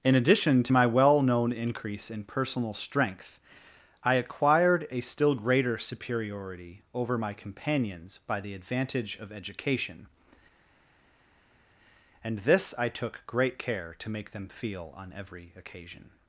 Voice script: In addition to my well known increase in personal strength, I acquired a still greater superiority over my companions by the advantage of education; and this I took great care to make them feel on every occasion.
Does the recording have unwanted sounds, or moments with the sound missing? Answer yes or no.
no